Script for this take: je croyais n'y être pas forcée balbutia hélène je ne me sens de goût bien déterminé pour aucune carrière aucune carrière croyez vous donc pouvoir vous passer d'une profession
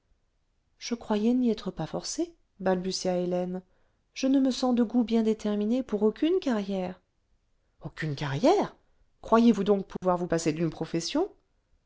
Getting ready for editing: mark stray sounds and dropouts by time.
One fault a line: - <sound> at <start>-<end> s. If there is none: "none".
- dropout at 10.0-10.0 s